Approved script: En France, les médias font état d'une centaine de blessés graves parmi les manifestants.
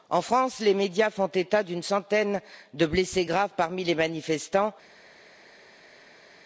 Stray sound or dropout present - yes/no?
no